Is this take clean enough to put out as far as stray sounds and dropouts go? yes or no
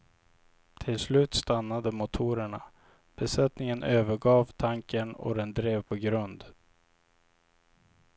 no